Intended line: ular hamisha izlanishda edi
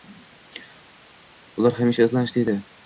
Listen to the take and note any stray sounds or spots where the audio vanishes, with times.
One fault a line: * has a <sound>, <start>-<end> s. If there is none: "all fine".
all fine